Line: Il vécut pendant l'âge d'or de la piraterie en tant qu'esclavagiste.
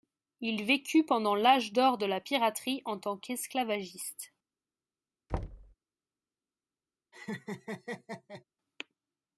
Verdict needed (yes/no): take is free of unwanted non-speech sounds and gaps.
no